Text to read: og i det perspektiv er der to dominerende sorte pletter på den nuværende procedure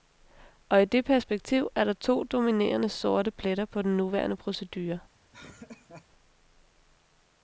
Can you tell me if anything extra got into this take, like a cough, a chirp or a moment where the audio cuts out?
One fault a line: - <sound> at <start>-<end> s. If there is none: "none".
- laugh at 5.3-6.1 s